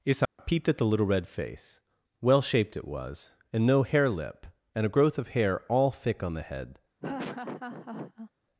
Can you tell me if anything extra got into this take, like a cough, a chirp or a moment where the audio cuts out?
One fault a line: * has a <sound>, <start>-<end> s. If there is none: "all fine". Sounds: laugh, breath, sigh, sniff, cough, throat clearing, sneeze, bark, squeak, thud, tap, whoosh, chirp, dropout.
* has a dropout, 0.3-0.4 s
* has a laugh, 7.0-8.3 s